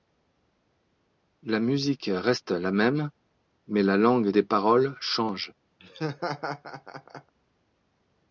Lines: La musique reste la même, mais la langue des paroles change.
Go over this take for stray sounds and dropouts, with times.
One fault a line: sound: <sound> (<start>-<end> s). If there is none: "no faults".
sound: laugh (5.8-7.3 s)